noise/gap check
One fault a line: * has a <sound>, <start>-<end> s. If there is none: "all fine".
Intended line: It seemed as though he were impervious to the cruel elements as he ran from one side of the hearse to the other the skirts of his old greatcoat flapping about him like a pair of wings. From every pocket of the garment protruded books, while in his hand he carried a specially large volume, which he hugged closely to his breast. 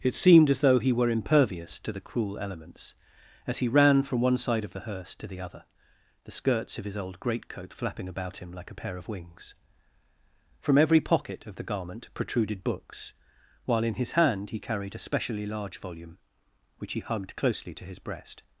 all fine